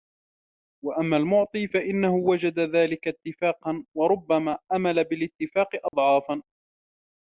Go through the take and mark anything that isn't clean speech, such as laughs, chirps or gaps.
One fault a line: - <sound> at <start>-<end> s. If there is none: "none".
- dropout at 5.9-5.9 s